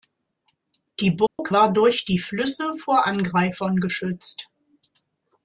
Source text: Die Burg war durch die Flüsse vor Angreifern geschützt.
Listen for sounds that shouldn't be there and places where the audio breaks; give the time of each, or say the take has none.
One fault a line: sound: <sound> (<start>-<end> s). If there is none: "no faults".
sound: dropout (1.3-1.4 s)